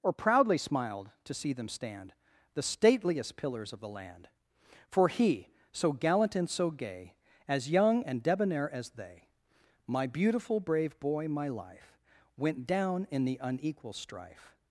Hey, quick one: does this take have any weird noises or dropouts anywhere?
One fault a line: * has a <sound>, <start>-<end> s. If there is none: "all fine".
all fine